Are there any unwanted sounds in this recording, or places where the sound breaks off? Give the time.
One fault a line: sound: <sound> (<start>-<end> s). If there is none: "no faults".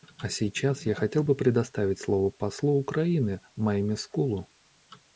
no faults